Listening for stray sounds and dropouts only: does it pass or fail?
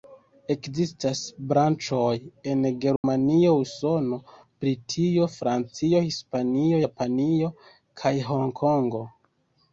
fail